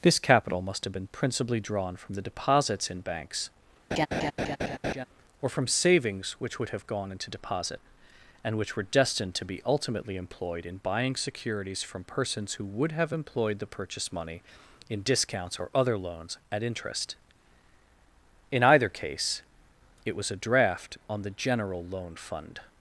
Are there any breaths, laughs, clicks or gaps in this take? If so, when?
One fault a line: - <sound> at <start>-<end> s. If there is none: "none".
- laugh at 3.9-5.1 s